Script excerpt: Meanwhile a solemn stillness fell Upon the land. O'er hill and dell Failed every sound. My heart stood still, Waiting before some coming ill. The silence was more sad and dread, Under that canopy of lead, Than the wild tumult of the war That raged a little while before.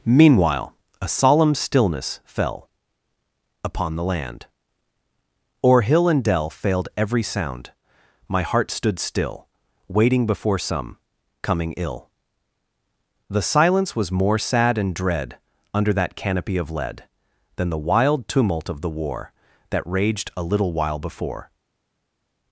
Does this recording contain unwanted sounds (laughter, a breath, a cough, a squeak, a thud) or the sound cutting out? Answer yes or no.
no